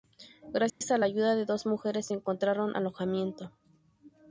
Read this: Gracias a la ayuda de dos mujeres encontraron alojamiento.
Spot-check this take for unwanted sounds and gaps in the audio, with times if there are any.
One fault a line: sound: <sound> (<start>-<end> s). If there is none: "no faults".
sound: dropout (0.7-0.8 s)